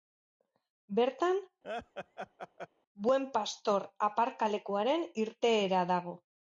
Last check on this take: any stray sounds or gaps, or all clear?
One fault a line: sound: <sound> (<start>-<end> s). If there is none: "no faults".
sound: laugh (1.6-2.7 s)